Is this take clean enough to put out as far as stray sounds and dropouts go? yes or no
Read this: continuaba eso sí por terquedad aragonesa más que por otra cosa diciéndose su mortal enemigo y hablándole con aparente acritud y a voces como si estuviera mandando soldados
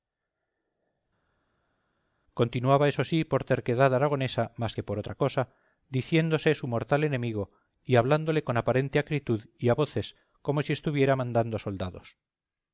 yes